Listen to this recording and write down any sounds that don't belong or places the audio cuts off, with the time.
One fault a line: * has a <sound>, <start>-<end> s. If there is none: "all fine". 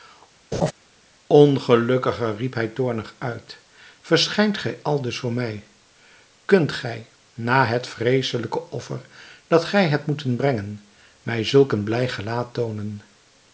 * has a laugh, 0.5-0.7 s